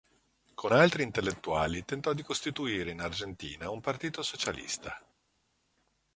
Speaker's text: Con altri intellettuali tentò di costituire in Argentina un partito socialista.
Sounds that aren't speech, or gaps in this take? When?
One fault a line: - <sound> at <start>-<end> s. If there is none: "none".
none